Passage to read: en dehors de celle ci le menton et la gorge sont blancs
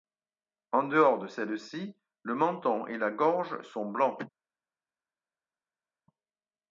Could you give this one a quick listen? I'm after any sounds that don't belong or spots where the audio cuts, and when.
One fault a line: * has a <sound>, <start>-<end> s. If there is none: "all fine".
all fine